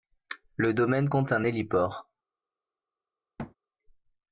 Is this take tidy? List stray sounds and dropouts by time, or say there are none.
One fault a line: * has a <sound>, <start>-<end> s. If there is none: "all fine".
* has a thud, 3.4-3.5 s